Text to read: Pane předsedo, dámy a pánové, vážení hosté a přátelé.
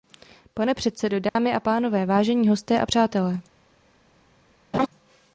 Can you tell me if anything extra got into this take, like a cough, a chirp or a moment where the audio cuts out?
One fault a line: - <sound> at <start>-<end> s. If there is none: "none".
- dropout at 1.3-1.4 s
- laugh at 4.7-4.9 s